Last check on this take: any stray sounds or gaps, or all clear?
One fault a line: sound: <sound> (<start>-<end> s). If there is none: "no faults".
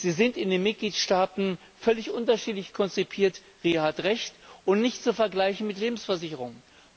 no faults